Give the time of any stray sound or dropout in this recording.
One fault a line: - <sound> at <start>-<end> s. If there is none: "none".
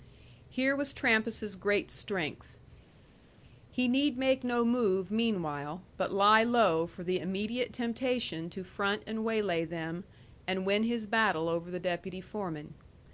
none